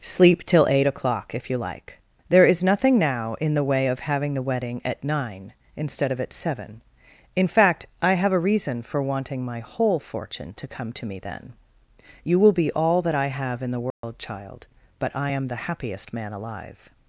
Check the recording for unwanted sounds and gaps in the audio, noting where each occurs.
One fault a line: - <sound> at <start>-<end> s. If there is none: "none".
- dropout at 13.9-14.0 s